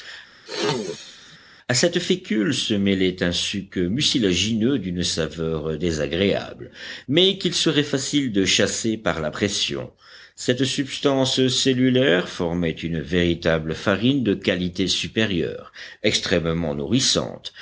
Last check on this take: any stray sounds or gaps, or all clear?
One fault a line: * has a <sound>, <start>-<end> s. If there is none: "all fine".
* has a throat clearing, 0.5-1.4 s